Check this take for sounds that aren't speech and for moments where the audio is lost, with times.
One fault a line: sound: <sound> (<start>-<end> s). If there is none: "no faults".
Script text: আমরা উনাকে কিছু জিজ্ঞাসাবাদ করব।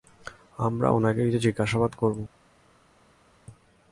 no faults